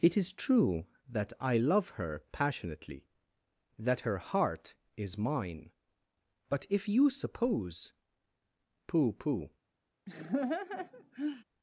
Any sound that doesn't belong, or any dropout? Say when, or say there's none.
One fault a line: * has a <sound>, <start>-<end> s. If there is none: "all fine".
* has a laugh, 10.1-11.4 s